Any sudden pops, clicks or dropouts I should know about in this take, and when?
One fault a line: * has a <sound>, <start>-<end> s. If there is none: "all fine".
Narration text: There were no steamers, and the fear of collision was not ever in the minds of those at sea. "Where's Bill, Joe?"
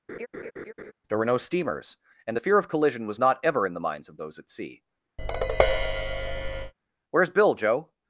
* has a laugh, 0.1-0.9 s
* has a tap, 5.2-6.7 s